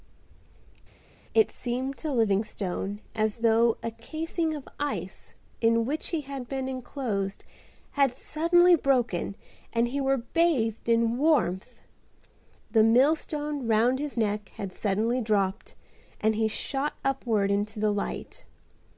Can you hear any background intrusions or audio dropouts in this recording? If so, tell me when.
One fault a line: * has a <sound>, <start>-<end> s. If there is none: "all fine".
all fine